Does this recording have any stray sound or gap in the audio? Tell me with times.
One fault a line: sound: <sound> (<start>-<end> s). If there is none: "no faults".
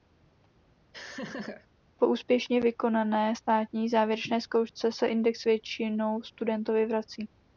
sound: laugh (0.9-1.7 s)